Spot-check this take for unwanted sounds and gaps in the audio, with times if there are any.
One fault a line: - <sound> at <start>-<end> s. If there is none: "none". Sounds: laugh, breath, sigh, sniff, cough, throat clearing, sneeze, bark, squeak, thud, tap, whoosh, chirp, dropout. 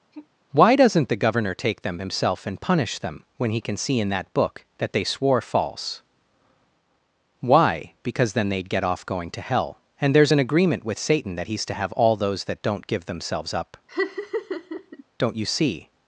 - sigh at 0.1-0.3 s
- laugh at 13.9-15.0 s